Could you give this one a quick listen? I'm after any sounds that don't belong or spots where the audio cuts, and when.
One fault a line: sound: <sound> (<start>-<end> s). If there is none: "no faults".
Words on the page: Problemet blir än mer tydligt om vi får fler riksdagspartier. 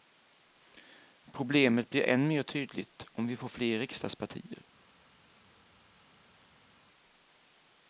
no faults